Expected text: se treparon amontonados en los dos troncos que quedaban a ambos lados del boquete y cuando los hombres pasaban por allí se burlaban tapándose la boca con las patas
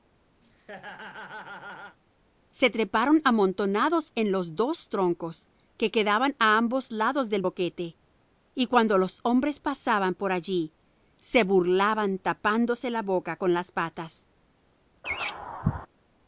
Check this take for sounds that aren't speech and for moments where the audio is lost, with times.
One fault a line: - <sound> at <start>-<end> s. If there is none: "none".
- laugh at 0.4-2.0 s
- laugh at 15.0-15.9 s